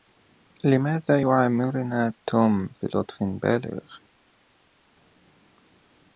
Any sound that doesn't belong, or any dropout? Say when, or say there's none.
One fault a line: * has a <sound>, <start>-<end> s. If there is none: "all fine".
all fine